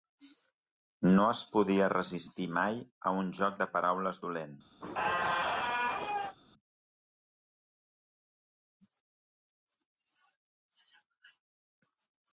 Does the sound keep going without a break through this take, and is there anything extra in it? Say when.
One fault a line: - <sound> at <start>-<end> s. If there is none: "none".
- squeak at 4.8-6.4 s